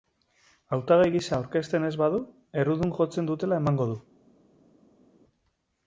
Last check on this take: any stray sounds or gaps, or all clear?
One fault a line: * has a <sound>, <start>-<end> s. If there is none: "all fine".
all fine